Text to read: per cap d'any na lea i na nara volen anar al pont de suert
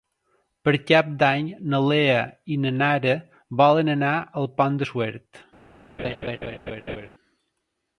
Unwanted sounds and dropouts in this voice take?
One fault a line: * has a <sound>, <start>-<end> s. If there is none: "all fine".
* has a laugh, 6.0-7.1 s